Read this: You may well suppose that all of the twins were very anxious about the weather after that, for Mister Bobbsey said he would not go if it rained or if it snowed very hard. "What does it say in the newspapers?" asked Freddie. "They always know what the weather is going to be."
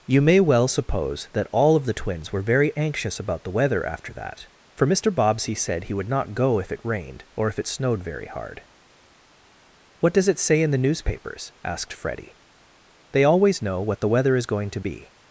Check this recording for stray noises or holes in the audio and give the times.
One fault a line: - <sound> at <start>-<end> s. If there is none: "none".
none